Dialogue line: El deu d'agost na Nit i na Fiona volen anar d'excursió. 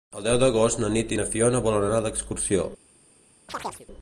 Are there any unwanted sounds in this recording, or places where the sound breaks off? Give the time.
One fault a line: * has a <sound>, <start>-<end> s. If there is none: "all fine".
* has a chirp, 3.5-3.9 s